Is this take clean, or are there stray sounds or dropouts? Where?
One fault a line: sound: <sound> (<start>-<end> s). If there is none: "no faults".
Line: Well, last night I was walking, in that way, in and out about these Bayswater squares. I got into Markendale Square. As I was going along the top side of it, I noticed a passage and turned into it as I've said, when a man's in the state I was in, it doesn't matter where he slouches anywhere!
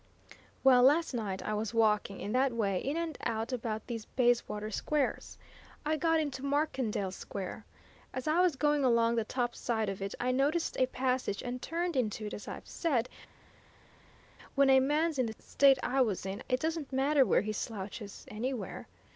no faults